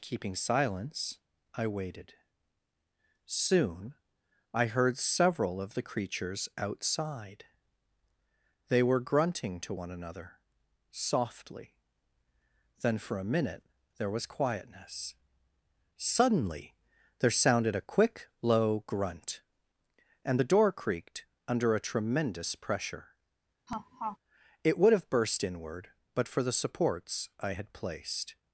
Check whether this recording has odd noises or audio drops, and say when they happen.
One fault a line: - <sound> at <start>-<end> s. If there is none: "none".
- laugh at 23.7-24.2 s